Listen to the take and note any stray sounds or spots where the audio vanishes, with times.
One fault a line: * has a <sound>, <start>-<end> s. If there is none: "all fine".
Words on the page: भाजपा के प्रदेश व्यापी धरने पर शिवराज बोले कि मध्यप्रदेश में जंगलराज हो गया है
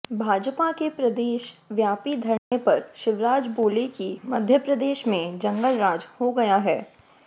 * has a dropout, 2.4-2.5 s